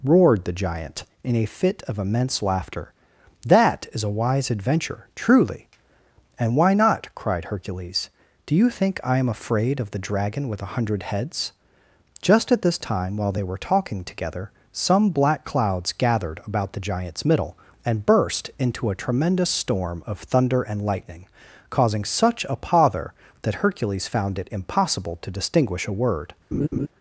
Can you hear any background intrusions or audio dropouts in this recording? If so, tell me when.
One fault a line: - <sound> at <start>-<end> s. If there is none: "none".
- laugh at 26.5-26.9 s